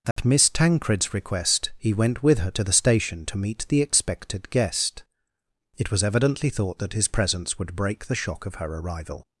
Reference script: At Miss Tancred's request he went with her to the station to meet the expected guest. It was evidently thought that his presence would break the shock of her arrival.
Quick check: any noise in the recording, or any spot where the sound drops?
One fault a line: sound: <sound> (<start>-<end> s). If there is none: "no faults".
sound: dropout (0.1-0.2 s)